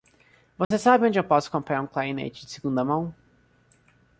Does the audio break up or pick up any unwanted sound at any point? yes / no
yes